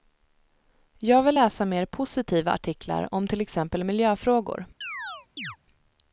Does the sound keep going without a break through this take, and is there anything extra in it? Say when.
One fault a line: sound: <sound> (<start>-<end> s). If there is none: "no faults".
sound: chirp (4.8-5.6 s)